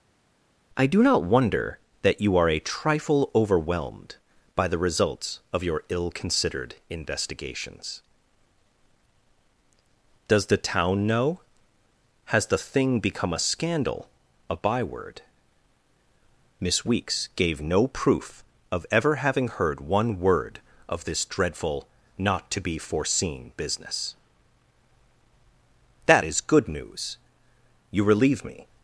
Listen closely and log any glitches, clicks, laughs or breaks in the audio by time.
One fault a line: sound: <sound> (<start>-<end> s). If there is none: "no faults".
no faults